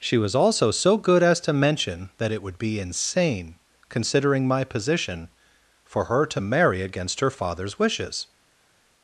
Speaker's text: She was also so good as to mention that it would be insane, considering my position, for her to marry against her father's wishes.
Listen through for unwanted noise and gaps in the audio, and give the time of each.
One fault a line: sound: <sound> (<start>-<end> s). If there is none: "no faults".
no faults